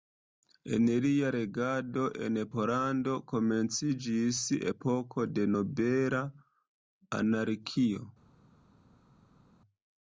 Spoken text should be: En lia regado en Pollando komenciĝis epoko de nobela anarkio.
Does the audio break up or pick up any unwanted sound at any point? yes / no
no